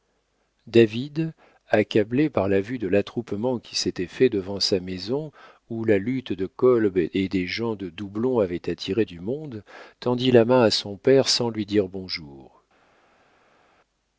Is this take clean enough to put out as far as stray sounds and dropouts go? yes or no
yes